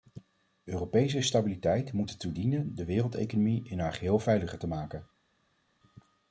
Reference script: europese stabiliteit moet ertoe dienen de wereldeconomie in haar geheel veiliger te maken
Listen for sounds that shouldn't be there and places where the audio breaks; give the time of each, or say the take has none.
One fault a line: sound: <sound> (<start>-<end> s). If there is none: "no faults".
no faults